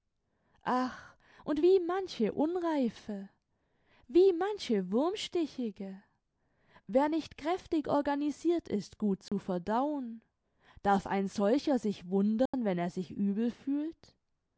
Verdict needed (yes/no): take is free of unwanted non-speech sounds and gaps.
no